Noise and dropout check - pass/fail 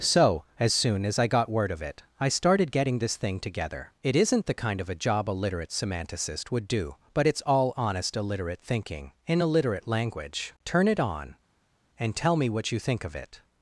pass